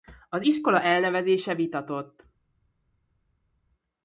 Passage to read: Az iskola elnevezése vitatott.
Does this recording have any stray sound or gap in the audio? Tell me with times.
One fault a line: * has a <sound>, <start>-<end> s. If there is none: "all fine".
all fine